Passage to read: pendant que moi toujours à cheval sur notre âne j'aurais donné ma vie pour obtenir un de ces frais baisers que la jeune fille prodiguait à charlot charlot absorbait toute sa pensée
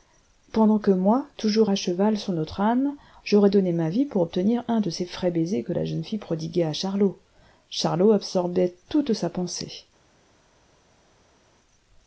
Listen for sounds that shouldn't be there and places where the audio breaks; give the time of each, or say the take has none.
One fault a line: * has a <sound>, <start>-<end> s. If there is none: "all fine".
all fine